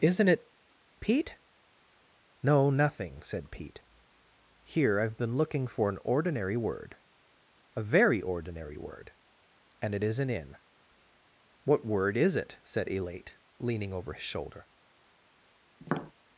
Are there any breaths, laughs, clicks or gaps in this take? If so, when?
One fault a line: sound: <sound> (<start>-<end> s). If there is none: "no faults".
sound: tap (15.8-16.1 s)